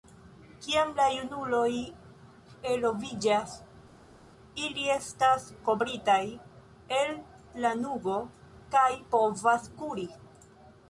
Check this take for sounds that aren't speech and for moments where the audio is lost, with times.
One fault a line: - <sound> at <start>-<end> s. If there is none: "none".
none